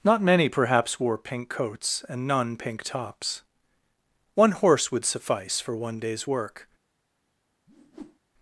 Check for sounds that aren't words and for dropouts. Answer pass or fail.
fail